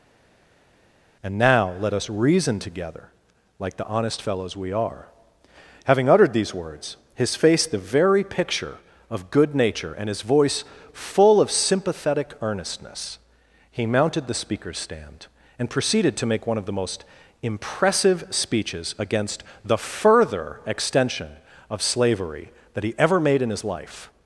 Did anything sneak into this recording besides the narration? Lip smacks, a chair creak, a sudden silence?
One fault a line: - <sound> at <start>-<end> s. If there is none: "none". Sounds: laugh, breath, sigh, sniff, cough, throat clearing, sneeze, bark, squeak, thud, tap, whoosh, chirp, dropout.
none